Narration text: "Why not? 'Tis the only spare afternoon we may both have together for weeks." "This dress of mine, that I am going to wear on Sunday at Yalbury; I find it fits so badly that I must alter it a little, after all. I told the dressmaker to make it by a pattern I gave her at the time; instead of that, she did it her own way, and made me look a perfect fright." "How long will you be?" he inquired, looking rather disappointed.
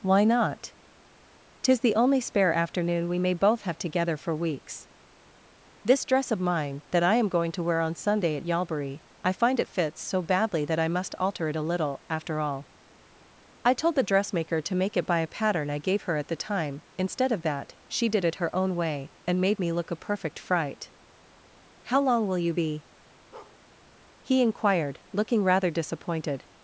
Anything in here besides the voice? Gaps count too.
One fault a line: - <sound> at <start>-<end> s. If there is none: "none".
- bark at 23.3-23.6 s